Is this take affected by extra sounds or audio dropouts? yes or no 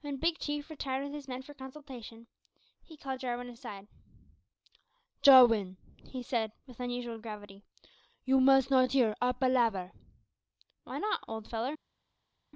no